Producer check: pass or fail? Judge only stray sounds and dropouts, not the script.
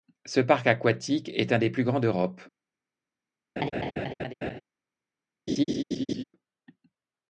fail